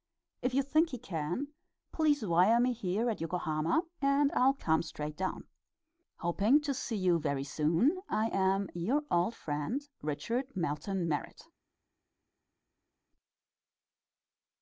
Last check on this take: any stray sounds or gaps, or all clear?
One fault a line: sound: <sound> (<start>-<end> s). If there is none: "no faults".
no faults